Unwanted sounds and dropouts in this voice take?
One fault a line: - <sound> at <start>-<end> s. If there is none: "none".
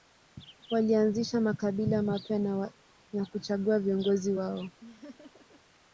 - laugh at 4.8-5.6 s